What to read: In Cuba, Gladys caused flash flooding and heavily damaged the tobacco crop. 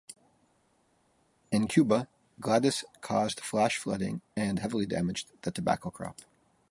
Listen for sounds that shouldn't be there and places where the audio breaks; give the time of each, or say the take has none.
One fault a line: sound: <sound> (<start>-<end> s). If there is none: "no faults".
no faults